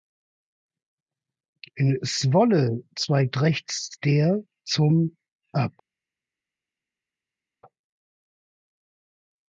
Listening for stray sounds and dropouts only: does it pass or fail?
pass